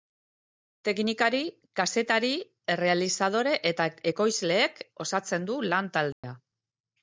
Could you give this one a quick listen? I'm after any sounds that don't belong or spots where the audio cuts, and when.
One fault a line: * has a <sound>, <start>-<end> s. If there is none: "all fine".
* has a dropout, 6.1-6.2 s